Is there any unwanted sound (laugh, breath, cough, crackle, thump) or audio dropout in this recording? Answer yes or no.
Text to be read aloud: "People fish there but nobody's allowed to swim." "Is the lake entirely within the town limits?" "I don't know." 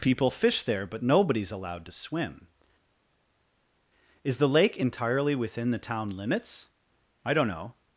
no